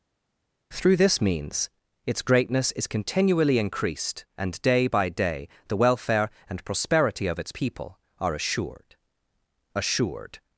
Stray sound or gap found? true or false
false